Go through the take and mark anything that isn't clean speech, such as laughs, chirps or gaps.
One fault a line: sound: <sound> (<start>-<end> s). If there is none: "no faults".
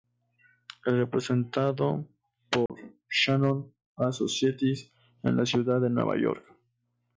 sound: dropout (2.7-2.7 s)